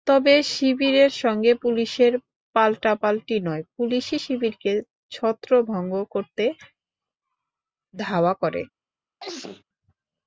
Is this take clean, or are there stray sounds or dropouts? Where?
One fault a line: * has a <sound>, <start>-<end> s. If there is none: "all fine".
* has a sneeze, 9.2-9.6 s